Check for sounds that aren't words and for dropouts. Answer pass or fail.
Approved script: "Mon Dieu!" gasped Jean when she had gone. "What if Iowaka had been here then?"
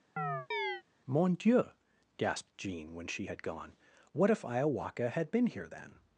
fail